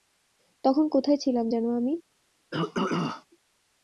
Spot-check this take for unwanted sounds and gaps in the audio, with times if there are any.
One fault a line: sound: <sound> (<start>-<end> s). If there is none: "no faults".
sound: throat clearing (2.5-3.3 s)